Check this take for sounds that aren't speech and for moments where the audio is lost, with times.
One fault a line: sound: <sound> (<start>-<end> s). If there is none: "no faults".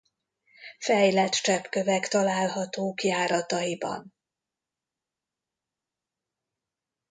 no faults